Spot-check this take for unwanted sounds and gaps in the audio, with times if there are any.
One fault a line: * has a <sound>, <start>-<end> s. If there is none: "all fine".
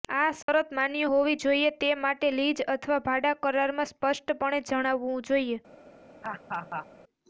* has a dropout, 0.4-0.5 s
* has a laugh, 6.2-6.9 s